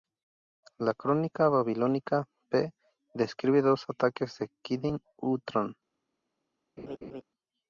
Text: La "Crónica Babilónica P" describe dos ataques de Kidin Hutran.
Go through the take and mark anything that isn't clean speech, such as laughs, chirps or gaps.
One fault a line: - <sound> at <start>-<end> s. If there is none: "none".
- laugh at 6.8-7.2 s